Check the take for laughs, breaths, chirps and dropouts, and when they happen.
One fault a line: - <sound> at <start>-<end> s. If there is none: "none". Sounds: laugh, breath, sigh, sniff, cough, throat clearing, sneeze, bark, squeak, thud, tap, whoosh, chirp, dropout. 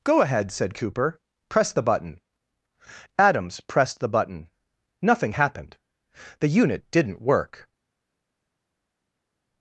none